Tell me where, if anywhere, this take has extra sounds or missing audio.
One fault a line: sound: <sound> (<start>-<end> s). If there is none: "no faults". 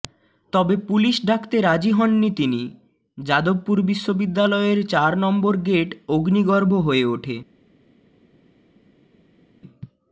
no faults